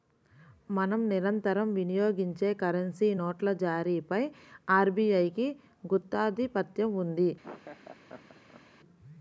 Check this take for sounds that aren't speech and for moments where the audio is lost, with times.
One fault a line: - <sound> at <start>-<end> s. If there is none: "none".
- laugh at 7.4-8.6 s